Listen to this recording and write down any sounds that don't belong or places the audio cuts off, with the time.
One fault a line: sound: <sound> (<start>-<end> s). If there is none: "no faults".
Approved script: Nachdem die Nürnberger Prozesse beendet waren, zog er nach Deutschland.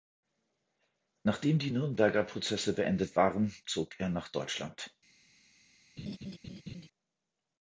sound: laugh (6.0-6.9 s)